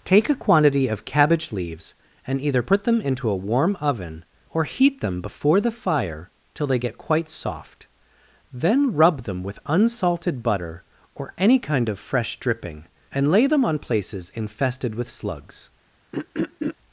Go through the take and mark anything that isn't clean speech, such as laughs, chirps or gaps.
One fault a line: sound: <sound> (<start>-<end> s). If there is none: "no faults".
sound: throat clearing (16.1-16.7 s)